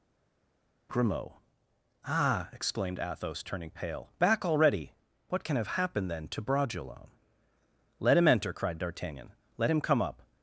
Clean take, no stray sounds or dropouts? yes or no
yes